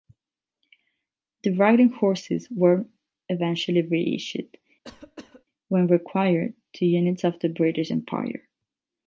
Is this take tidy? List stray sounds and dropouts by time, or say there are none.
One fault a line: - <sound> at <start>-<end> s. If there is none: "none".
- cough at 4.8-5.4 s